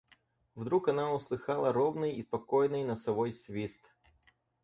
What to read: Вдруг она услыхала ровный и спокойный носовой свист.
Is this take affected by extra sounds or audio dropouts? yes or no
no